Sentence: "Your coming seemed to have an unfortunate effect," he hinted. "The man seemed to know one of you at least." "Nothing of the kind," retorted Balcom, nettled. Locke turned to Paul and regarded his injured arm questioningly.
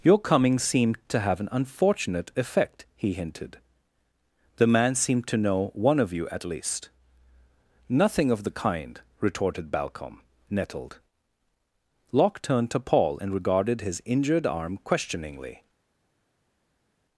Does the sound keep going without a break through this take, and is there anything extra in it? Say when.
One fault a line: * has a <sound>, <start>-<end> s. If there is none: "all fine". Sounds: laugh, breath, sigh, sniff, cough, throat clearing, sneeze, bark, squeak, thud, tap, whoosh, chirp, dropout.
all fine